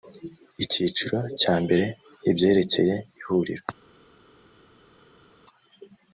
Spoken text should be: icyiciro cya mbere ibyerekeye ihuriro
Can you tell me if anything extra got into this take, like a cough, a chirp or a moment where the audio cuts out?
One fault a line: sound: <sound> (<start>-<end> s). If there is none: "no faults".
no faults